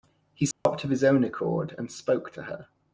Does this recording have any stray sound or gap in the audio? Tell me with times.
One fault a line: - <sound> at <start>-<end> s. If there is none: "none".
- dropout at 0.5-0.7 s